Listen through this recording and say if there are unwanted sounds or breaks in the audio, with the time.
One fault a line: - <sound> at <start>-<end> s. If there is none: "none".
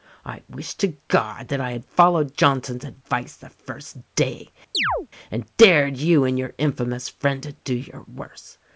- chirp at 4.7-5.1 s